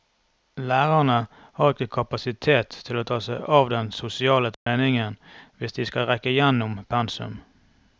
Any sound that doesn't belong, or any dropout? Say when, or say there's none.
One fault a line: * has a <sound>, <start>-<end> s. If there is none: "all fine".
* has a dropout, 4.5-4.7 s